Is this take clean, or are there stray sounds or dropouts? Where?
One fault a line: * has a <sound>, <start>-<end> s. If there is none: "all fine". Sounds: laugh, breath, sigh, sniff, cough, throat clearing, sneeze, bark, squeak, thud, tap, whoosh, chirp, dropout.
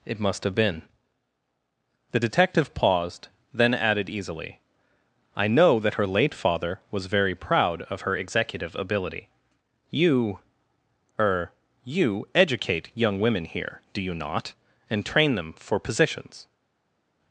all fine